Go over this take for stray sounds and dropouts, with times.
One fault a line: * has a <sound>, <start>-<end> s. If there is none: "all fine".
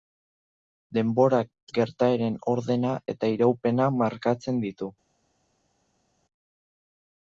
all fine